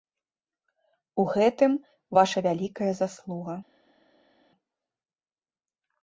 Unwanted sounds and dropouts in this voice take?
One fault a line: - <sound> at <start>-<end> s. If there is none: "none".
none